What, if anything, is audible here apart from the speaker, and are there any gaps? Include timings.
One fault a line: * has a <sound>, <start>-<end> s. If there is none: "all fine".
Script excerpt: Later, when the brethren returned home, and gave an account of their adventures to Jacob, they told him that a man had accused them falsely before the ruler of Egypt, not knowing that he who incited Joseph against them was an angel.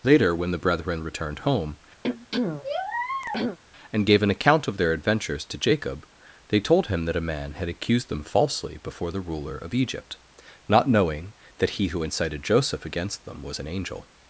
* has a throat clearing, 2.0-3.6 s